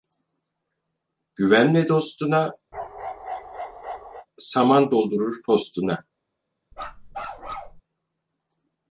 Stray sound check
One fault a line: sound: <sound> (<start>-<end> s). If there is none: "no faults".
sound: bark (2.7-4.3 s)
sound: bark (6.7-7.8 s)